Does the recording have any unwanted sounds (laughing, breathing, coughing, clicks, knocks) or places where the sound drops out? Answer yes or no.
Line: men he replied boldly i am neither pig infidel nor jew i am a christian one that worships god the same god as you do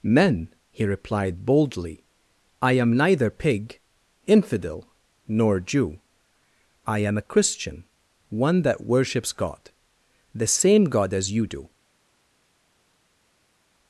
no